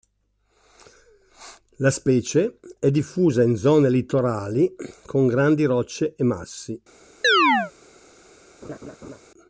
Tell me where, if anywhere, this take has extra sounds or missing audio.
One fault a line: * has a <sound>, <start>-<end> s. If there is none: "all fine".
* has a chirp, 7.2-7.7 s
* has a laugh, 8.6-9.2 s